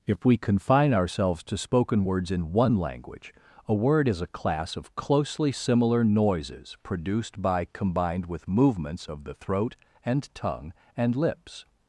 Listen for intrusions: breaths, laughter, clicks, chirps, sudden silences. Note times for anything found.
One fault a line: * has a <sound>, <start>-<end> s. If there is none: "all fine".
all fine